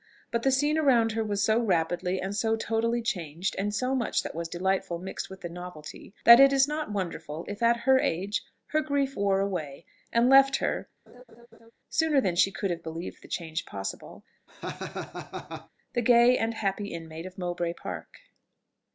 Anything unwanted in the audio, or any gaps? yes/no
yes